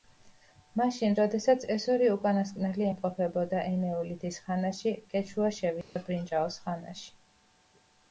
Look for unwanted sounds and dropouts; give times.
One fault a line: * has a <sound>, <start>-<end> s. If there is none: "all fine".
* has a dropout, 5.8-6.0 s